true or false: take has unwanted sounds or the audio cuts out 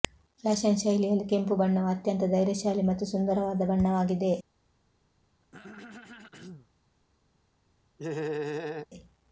true